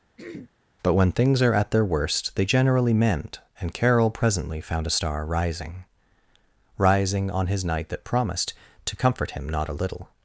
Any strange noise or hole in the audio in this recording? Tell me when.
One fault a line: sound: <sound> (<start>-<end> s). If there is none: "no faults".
sound: throat clearing (0.2-0.5 s)